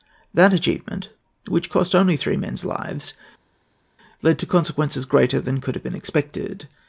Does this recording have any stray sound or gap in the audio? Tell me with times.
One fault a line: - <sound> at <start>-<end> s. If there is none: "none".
none